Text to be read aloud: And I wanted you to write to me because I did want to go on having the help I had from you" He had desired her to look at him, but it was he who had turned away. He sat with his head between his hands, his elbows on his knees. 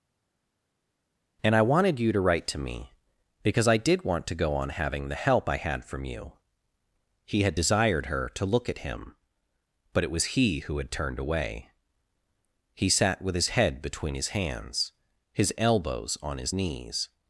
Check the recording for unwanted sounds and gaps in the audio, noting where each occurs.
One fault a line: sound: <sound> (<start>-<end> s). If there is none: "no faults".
no faults